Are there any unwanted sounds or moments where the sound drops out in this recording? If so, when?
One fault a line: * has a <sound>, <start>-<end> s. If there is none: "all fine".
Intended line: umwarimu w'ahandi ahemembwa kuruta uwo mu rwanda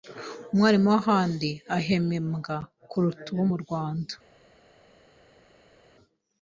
all fine